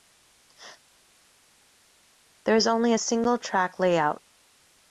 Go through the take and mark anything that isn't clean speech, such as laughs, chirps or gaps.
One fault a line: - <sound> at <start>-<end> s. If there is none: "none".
none